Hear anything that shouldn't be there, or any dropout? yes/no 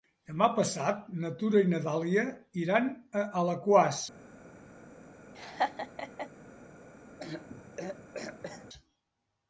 yes